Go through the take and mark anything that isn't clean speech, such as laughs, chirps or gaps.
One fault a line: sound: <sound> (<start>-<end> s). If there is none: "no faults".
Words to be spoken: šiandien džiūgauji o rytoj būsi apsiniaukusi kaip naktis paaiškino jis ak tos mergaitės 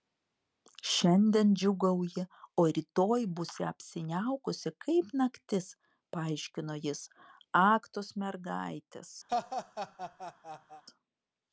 sound: laugh (9.3-10.8 s)